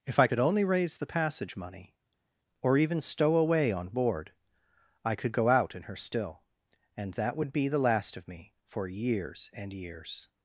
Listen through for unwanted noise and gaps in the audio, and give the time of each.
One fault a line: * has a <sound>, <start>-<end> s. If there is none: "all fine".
all fine